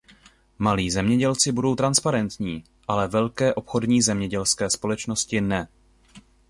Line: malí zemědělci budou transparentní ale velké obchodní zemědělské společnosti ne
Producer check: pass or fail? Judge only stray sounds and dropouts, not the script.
pass